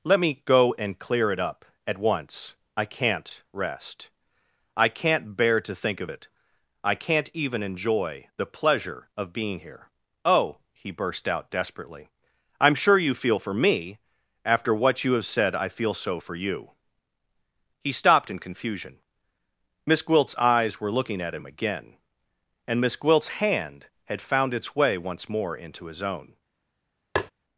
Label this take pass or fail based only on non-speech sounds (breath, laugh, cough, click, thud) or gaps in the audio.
fail